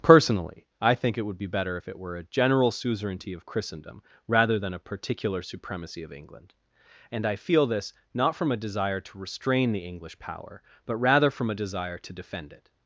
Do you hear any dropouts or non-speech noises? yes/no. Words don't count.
no